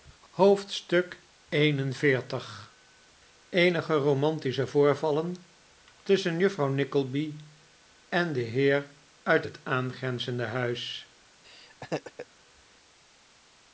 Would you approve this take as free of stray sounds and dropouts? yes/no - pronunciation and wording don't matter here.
no